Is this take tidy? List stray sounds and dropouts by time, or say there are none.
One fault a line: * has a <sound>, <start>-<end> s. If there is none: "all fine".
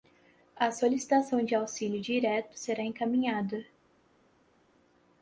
all fine